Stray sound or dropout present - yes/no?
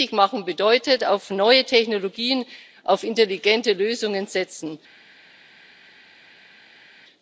no